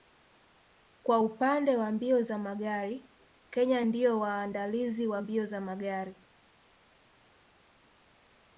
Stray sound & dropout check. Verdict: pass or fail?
pass